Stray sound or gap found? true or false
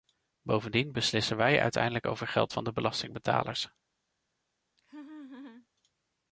true